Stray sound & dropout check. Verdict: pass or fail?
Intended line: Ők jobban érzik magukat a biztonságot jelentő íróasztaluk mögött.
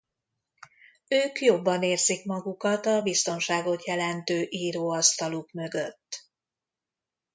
pass